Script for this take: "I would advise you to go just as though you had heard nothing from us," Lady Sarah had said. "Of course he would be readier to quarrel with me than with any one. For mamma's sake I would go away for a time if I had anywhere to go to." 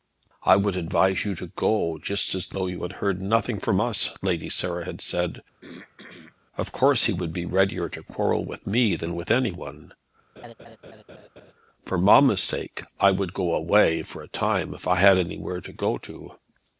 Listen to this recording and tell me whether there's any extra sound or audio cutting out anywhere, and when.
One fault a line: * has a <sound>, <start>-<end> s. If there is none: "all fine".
* has a throat clearing, 5.6-6.4 s
* has a laugh, 10.4-11.5 s